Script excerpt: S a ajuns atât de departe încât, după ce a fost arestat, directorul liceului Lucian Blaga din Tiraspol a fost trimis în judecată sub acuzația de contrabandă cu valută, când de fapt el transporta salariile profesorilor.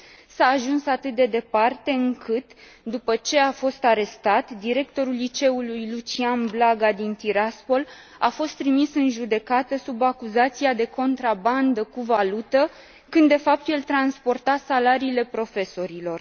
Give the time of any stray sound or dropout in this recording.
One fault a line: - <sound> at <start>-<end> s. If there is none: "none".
none